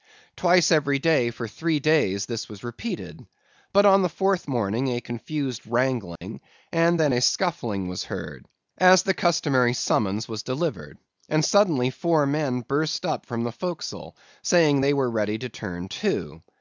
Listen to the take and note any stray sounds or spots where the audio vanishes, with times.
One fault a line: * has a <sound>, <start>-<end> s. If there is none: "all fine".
* has a dropout, 6.2-6.2 s